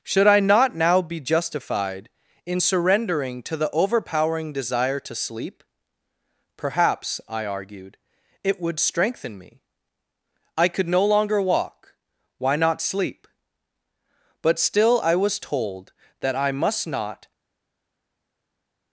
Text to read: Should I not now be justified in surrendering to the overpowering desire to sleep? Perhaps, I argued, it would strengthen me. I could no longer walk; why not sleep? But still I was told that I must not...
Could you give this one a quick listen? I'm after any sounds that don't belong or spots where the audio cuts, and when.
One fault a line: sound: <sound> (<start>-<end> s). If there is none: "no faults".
no faults